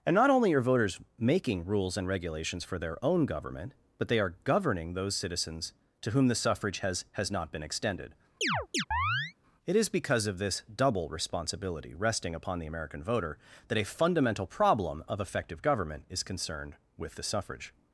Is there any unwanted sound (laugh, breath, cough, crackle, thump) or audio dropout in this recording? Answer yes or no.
yes